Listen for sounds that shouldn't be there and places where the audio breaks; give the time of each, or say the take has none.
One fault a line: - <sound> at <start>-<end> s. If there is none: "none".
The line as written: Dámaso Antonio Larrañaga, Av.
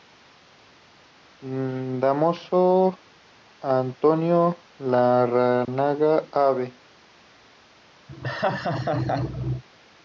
- dropout at 5.6-5.7 s
- laugh at 8.1-9.6 s